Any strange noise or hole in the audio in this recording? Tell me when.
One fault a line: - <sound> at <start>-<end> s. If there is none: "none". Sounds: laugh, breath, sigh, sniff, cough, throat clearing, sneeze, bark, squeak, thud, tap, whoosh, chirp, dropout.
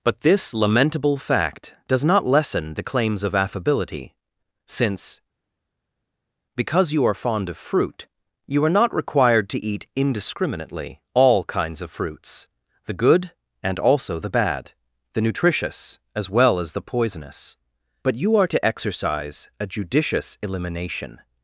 none